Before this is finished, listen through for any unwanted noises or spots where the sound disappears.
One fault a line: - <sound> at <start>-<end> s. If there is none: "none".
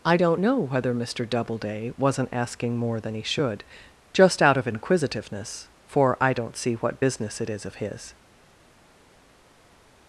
none